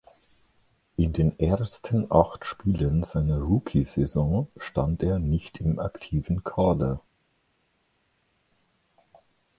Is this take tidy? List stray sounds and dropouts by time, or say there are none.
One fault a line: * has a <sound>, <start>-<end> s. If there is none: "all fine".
all fine